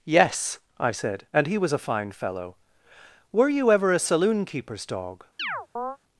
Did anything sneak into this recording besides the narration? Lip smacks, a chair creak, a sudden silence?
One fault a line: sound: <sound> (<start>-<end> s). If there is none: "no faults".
sound: chirp (5.4-6.0 s)